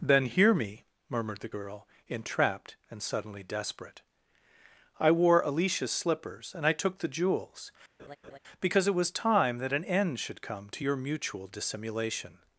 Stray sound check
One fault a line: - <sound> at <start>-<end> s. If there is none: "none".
- laugh at 8.0-8.4 s